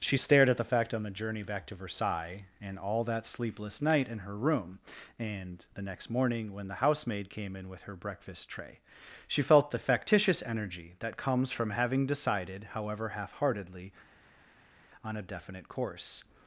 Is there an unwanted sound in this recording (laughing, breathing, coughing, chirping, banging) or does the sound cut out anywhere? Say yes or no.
no